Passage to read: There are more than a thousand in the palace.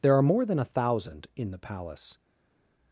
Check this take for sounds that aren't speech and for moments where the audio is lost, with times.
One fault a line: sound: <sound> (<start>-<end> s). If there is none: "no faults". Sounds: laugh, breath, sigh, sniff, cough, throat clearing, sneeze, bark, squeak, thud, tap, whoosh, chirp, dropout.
no faults